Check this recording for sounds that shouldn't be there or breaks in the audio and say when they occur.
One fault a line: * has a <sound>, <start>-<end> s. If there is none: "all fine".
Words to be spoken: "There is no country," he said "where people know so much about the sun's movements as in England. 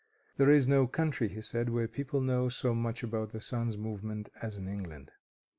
all fine